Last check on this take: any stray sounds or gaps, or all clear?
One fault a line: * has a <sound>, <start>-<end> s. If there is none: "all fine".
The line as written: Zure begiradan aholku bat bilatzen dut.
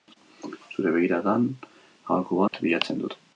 * has a dropout, 2.5-2.5 s